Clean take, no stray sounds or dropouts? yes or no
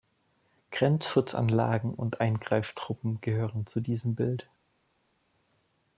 yes